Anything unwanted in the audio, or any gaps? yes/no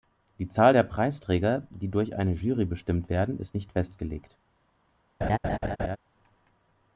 yes